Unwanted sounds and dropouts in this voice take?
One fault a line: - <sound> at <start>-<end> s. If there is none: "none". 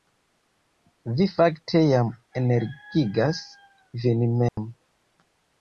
- dropout at 4.5-4.6 s